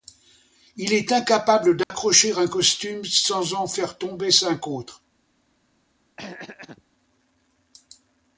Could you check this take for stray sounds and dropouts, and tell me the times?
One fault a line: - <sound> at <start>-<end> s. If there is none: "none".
- dropout at 1.8-1.9 s
- throat clearing at 6.2-6.8 s